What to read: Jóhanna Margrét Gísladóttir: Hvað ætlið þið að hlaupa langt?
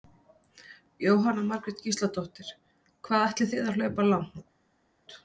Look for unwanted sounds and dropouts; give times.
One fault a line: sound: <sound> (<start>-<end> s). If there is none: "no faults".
no faults